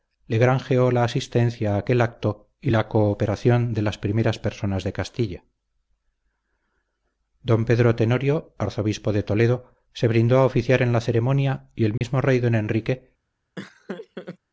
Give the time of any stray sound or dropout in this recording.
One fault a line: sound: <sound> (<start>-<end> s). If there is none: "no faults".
sound: dropout (12.0-12.0 s)
sound: laugh (13.6-14.4 s)